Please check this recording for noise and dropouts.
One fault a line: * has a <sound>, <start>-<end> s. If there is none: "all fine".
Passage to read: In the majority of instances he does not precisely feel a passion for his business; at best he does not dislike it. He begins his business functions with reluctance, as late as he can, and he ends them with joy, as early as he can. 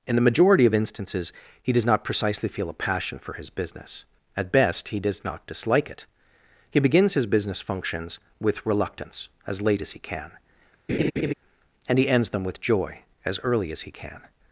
* has a laugh, 10.9-11.3 s